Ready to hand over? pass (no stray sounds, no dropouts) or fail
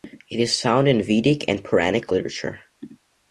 pass